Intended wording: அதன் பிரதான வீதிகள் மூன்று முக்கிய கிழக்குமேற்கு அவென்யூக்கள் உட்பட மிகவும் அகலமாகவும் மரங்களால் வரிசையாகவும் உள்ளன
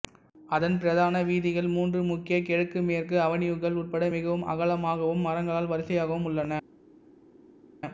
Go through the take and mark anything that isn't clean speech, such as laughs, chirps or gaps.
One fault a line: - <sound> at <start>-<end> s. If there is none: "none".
none